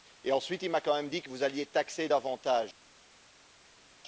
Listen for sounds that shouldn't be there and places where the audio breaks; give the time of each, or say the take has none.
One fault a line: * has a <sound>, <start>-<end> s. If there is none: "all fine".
all fine